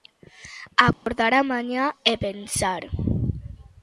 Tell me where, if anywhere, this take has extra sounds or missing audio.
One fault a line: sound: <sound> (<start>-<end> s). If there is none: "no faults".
sound: dropout (0.9-1.1 s)